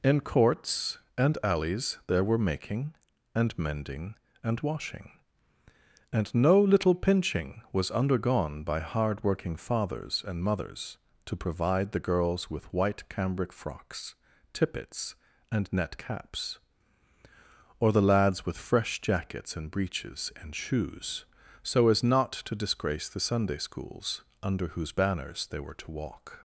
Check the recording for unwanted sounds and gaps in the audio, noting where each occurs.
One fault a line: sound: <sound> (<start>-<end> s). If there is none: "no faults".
no faults